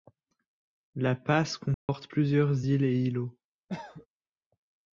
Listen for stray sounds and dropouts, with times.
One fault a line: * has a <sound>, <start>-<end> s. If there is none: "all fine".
* has a dropout, 1.7-1.9 s
* has a cough, 3.7-4.1 s